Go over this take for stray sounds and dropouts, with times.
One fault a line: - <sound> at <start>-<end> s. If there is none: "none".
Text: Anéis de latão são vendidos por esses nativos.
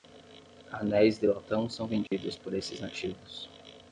- dropout at 2.1-2.1 s